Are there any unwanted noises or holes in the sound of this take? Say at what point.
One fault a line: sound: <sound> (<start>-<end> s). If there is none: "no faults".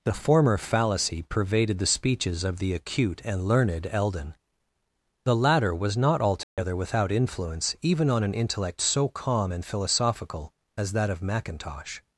sound: dropout (6.4-6.6 s)